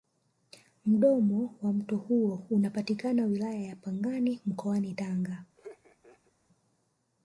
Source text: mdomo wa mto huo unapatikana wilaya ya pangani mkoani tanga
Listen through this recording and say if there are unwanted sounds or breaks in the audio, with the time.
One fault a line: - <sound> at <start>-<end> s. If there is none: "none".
- laugh at 5.6-6.3 s